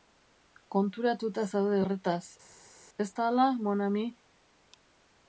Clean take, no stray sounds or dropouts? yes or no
yes